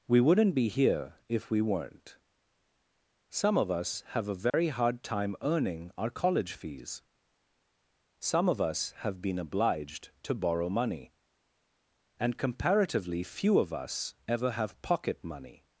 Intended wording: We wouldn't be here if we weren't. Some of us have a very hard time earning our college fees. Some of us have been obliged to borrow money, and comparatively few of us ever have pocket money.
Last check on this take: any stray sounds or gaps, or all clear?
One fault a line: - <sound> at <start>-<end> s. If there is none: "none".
- dropout at 4.5-4.5 s